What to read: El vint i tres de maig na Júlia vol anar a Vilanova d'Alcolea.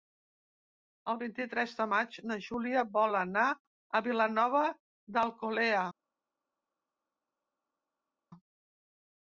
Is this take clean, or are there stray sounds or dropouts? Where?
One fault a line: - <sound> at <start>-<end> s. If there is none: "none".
none